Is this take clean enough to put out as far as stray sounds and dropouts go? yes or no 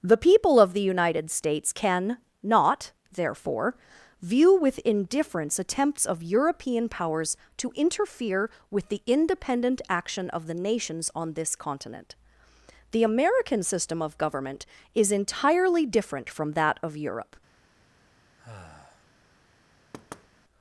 no